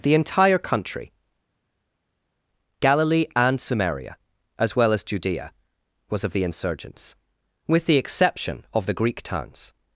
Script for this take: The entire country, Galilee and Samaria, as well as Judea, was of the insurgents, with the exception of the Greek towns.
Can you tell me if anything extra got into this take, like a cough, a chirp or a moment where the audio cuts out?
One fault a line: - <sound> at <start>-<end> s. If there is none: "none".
none